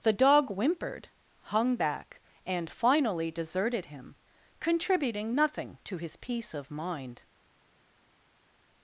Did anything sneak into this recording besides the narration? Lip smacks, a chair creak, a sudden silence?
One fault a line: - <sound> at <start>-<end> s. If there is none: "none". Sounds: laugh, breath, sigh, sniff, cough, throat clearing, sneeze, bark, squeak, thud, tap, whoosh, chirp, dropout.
none